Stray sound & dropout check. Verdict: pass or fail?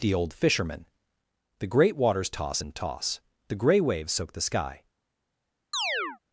fail